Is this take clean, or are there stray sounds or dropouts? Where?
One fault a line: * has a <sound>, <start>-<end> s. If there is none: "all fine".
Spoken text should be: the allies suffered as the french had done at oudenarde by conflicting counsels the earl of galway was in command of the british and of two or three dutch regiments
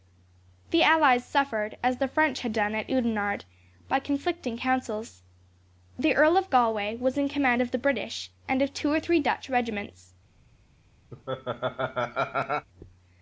* has a laugh, 11.1-12.7 s